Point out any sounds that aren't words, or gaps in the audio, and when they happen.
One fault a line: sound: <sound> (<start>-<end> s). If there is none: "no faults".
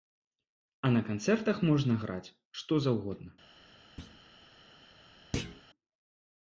sound: thud (4.0-4.2 s)
sound: thud (5.3-5.6 s)